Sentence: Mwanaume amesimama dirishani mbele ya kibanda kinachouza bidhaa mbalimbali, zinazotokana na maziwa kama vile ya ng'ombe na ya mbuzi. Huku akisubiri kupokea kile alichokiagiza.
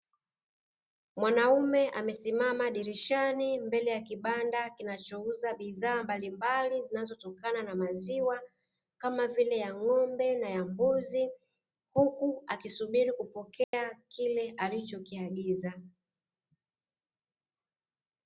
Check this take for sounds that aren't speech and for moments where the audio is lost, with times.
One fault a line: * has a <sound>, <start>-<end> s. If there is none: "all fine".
* has a dropout, 13.6-13.7 s